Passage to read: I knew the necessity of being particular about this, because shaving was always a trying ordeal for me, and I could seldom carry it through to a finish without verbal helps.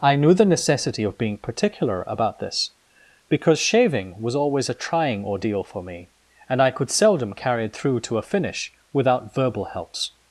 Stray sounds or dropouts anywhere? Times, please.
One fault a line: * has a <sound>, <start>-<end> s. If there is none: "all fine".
all fine